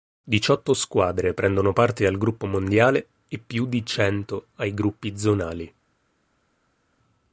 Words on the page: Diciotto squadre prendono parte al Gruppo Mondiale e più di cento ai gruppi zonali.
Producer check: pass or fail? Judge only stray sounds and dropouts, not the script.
pass